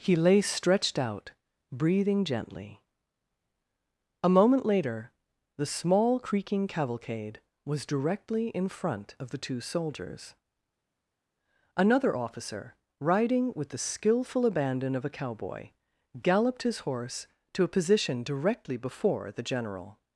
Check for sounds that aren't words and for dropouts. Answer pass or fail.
pass